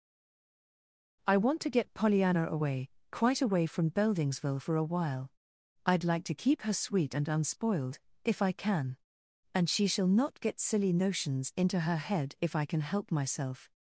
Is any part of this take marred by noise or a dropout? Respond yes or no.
no